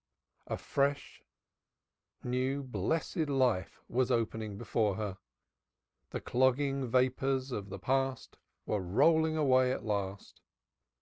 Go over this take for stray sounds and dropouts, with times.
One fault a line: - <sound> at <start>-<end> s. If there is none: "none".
none